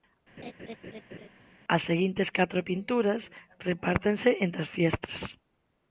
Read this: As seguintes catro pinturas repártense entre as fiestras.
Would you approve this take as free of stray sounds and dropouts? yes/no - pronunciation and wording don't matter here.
no